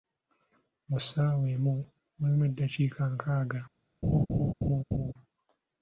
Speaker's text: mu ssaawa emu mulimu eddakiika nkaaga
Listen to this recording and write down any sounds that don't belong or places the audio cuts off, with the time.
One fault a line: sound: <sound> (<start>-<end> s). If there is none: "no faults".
sound: laugh (4.0-5.1 s)